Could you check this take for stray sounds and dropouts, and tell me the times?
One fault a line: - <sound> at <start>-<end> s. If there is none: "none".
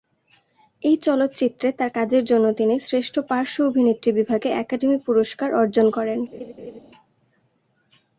- laugh at 6.3-6.8 s